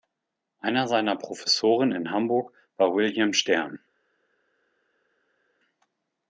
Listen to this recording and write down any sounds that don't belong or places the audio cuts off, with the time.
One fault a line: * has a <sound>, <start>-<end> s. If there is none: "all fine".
all fine